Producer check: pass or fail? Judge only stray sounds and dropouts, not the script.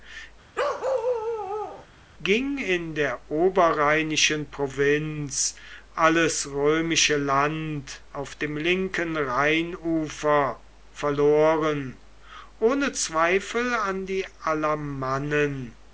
fail